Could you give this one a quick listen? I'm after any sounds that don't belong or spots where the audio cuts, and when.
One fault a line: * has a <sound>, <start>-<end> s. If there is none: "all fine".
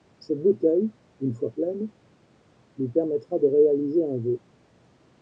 all fine